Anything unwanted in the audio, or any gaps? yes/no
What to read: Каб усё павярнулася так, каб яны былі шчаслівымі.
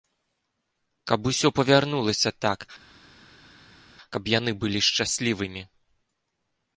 no